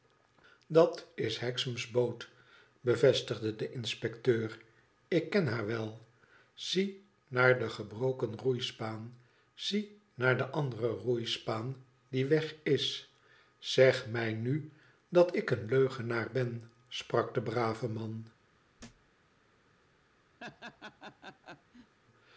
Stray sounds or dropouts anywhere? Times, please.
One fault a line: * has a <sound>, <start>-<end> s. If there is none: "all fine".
* has a thud, 18.8-19.1 s
* has a laugh, 20.4-22.0 s